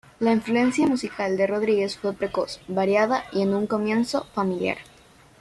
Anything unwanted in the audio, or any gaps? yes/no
no